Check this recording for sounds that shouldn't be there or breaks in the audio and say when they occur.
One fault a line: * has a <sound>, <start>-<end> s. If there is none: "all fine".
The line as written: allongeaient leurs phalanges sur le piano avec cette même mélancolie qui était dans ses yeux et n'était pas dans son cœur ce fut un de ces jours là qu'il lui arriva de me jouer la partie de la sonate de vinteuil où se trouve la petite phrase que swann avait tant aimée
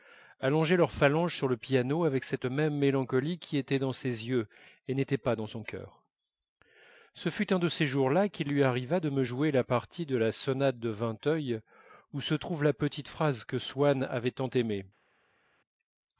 all fine